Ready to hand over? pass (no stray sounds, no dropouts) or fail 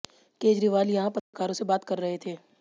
fail